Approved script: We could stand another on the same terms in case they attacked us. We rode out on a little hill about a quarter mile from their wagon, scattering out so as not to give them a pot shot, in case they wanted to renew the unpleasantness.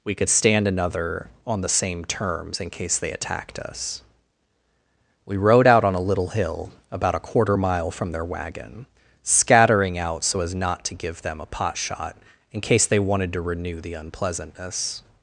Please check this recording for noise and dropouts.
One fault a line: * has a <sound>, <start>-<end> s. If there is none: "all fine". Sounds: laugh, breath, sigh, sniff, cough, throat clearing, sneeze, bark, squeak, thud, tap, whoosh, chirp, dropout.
all fine